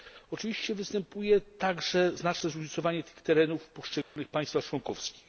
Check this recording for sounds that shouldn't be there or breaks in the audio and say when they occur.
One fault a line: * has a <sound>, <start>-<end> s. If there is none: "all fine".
* has a dropout, 4.0-4.2 s